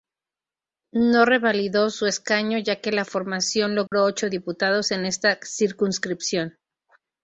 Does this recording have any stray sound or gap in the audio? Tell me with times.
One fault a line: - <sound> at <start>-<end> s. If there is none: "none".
- dropout at 3.9-3.9 s